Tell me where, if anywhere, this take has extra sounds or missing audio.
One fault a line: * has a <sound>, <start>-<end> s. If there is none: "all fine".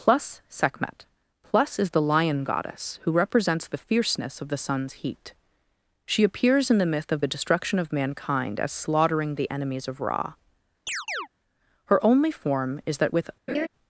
* has a chirp, 10.9-11.3 s
* has a laugh, 13.5-13.7 s